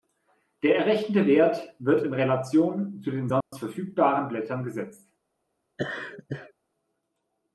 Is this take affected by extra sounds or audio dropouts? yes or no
yes